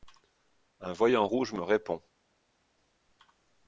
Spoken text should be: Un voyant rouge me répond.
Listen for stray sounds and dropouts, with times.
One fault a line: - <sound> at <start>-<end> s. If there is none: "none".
none